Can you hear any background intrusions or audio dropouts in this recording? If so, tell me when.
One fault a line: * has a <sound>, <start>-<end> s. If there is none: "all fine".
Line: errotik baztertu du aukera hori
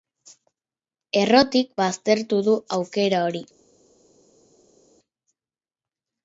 all fine